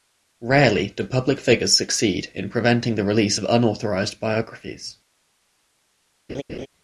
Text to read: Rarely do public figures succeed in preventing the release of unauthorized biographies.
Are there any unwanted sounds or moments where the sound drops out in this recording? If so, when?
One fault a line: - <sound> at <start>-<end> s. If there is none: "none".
- laugh at 6.3-6.7 s